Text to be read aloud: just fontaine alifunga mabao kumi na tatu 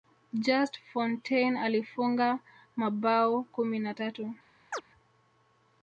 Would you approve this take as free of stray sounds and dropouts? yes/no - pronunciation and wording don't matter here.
no